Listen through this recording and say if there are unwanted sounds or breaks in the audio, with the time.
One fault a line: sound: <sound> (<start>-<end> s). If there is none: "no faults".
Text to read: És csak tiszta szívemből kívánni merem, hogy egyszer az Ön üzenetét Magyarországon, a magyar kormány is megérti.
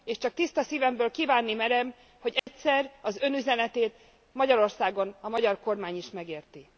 sound: dropout (2.4-2.5 s)